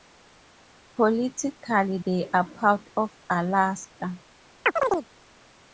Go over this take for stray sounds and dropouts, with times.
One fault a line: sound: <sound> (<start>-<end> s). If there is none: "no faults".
sound: chirp (4.6-5.1 s)